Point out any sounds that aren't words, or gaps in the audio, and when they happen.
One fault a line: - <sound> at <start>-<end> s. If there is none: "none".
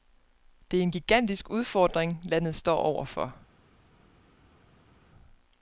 none